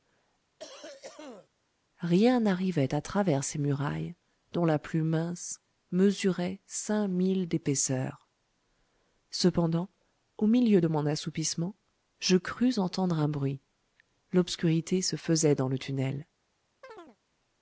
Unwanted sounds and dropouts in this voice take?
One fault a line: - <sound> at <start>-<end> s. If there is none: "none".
- cough at 0.6-1.5 s
- chirp at 16.8-17.2 s